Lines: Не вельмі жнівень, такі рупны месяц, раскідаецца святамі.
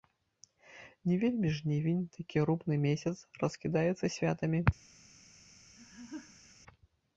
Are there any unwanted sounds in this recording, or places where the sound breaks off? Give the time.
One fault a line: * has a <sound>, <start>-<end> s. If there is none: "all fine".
* has a laugh, 5.8-6.5 s